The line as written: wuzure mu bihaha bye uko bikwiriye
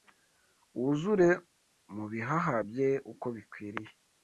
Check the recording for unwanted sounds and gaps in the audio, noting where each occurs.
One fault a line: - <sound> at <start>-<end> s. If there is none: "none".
none